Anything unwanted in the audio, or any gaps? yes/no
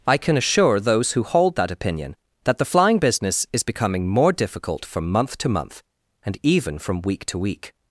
no